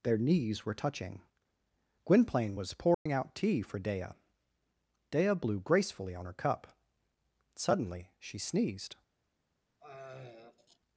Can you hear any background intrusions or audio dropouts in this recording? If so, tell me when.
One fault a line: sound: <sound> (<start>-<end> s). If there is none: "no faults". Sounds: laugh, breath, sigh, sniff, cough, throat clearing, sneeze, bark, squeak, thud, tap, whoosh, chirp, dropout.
sound: dropout (2.9-3.1 s)
sound: throat clearing (9.8-10.8 s)